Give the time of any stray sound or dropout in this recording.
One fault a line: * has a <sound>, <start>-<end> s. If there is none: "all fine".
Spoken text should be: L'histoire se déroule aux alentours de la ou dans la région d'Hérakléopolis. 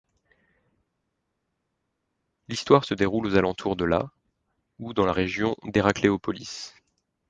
all fine